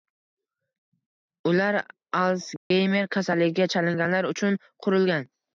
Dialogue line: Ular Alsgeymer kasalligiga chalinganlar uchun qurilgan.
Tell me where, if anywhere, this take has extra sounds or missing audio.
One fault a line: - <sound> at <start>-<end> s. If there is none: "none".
- dropout at 2.6-2.7 s